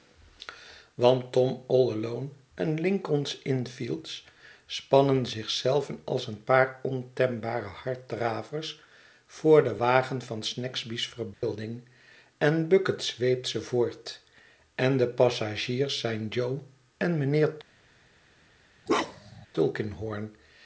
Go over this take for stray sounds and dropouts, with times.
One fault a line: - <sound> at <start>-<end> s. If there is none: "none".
- dropout at 11.3-11.4 s
- bark at 18.9-19.5 s